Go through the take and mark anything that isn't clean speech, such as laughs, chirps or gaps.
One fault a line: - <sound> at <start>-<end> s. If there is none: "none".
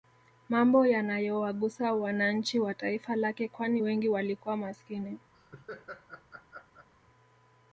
- laugh at 5.3-6.9 s